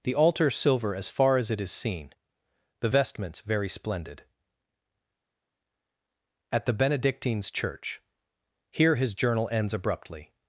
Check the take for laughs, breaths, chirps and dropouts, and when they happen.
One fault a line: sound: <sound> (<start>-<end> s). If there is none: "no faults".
no faults